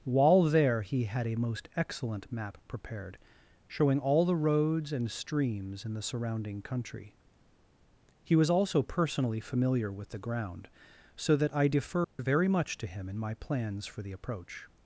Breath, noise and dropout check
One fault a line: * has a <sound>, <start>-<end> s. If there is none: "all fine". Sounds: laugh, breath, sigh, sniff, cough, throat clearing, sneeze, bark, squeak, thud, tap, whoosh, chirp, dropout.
* has a dropout, 12.0-12.2 s